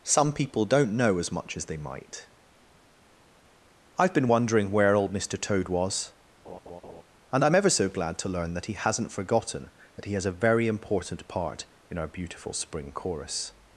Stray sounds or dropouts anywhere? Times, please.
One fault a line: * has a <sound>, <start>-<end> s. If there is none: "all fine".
* has a laugh, 6.5-7.0 s